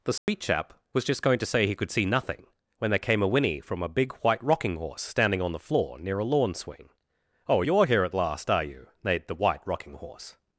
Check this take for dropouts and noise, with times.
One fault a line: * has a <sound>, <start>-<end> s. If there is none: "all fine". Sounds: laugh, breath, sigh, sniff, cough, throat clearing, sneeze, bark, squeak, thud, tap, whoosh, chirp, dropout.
* has a dropout, 0.2-0.3 s